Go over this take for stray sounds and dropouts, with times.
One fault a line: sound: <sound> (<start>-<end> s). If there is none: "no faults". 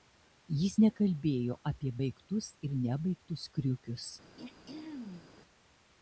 sound: throat clearing (4.4-5.3 s)